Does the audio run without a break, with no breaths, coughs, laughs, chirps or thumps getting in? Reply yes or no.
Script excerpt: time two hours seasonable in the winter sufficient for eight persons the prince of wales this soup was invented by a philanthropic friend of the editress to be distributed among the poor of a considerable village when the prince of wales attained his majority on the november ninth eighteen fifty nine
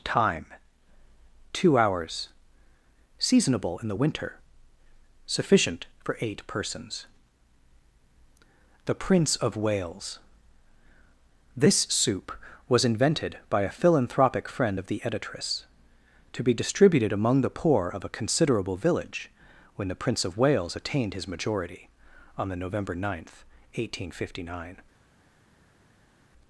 yes